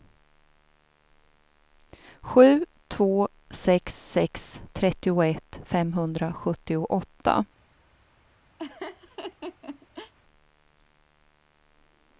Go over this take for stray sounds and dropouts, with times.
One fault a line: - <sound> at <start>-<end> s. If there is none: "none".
- laugh at 8.6-10.1 s